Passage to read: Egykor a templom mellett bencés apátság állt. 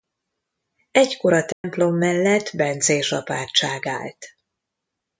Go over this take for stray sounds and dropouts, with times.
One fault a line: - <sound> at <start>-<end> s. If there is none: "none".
- dropout at 1.5-1.6 s